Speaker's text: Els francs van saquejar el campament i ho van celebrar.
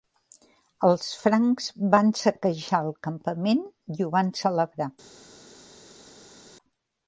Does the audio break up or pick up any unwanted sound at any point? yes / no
no